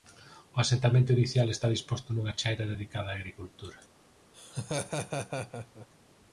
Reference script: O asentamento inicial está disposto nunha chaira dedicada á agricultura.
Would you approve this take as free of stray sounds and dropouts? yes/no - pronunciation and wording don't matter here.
no